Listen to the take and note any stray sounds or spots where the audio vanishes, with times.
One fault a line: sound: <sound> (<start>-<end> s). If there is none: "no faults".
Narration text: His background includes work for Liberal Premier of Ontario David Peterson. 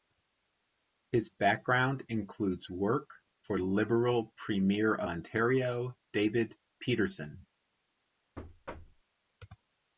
sound: thud (8.4-9.0 s)